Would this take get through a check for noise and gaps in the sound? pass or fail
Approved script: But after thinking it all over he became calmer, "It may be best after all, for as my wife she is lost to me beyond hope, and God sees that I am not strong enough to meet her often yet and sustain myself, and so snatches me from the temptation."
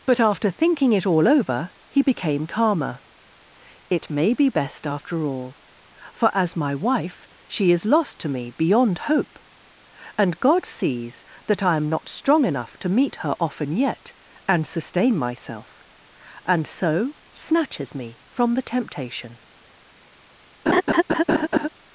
fail